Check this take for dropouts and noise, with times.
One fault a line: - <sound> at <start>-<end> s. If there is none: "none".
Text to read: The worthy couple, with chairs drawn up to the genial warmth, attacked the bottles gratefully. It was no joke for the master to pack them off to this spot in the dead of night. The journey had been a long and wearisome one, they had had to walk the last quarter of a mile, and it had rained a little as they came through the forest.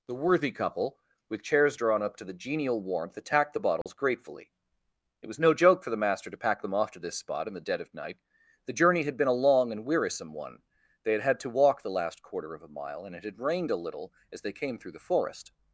- dropout at 3.8-3.9 s